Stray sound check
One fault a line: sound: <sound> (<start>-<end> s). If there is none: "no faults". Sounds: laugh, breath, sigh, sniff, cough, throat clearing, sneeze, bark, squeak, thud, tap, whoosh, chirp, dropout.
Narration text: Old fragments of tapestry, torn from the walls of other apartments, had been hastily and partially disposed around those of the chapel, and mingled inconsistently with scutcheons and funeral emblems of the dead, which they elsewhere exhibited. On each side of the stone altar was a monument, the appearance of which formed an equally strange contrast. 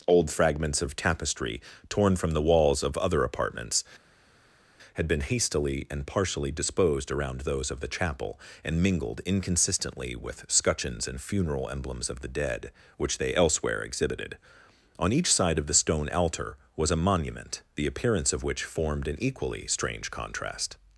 no faults